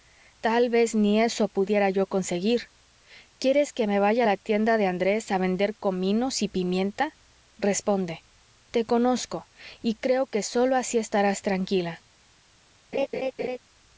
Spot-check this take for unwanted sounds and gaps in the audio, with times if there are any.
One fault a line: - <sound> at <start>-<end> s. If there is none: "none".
- laugh at 12.9-13.6 s